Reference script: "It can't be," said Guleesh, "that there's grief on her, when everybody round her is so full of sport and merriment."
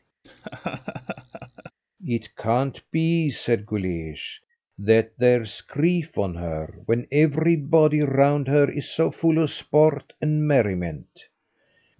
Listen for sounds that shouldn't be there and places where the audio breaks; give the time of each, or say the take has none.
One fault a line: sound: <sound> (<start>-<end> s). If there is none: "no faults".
sound: laugh (0.2-1.7 s)